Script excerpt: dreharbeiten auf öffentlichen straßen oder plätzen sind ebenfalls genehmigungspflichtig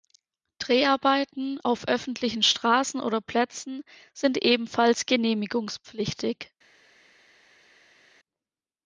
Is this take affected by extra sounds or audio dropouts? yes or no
no